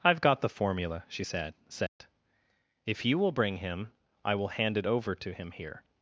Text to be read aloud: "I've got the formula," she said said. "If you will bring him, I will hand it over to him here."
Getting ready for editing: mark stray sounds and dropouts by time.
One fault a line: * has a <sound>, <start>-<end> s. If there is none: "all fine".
* has a dropout, 1.9-2.0 s